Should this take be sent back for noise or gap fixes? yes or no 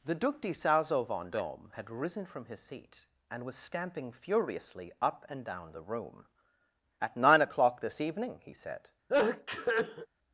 yes